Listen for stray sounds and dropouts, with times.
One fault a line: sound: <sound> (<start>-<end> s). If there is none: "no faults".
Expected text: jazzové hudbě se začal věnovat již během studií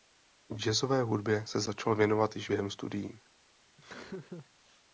sound: laugh (3.8-4.5 s)